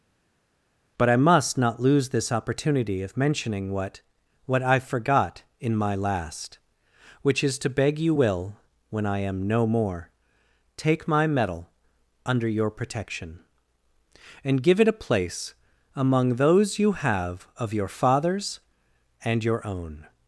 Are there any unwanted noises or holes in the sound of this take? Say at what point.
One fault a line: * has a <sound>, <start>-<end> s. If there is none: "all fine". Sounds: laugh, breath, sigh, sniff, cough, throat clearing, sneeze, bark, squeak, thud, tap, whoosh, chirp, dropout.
all fine